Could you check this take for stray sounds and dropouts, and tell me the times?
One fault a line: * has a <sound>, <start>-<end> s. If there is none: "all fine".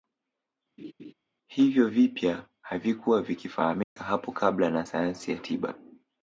* has a laugh, 0.8-1.1 s
* has a dropout, 3.8-4.0 s